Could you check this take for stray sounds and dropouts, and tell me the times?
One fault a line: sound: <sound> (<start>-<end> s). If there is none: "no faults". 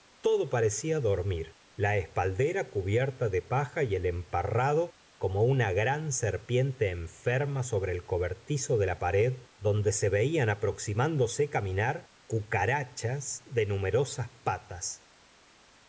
no faults